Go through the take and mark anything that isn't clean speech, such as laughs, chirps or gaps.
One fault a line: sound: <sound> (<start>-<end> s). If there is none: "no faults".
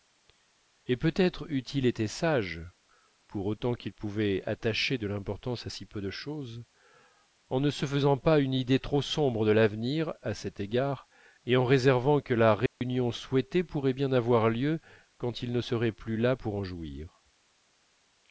sound: dropout (12.7-12.8 s)